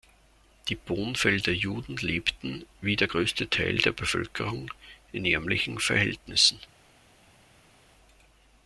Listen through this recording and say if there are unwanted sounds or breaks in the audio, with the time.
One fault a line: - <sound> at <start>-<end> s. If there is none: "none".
none